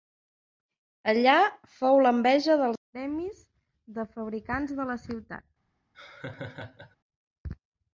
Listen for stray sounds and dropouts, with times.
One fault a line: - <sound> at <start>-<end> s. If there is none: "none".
- laugh at 5.9-7.0 s